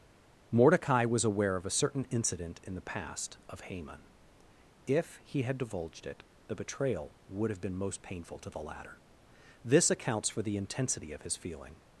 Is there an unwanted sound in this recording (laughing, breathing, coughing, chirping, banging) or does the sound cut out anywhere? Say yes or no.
no